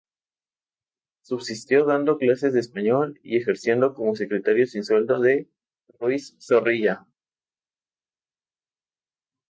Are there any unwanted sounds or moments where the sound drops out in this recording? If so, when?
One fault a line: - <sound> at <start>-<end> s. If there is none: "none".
none